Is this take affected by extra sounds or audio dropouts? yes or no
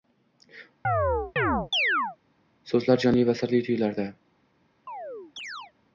yes